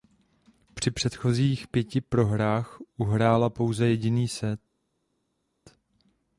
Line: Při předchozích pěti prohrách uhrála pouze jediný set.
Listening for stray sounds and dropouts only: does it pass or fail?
pass